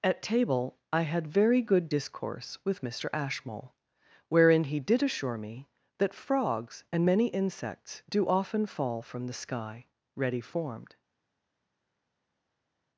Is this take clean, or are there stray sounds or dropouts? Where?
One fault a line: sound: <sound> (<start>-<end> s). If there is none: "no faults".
no faults